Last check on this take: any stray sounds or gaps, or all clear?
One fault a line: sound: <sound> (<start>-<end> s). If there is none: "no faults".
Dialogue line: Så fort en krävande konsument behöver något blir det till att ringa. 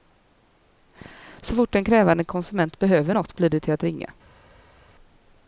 no faults